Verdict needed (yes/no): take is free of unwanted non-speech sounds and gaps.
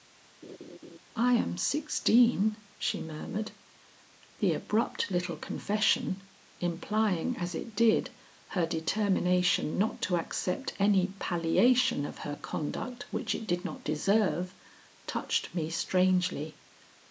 no